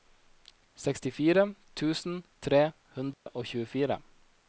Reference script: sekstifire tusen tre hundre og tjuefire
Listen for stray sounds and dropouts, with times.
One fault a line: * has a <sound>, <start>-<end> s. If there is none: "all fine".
* has a dropout, 3.1-3.3 s